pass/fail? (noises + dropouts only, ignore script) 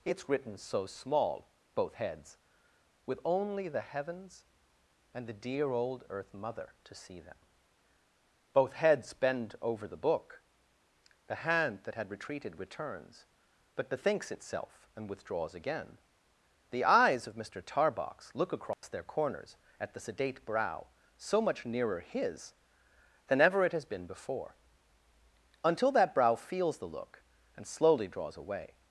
fail